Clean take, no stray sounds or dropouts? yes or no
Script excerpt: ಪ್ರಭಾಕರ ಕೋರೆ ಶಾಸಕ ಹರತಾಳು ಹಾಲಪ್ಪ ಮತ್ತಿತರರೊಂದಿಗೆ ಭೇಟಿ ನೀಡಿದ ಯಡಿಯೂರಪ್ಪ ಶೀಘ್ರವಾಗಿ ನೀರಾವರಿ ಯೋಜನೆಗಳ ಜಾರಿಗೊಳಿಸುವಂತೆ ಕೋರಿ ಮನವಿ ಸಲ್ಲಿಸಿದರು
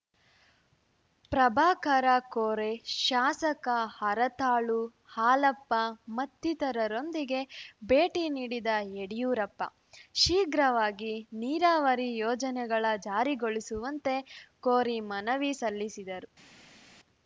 yes